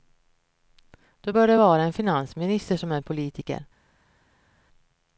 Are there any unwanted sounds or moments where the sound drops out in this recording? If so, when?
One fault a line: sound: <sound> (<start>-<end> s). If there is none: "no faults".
no faults